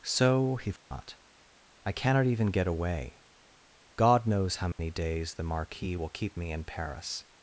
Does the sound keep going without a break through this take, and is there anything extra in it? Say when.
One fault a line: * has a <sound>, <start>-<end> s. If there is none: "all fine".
* has a dropout, 0.8-0.9 s
* has a dropout, 4.7-4.8 s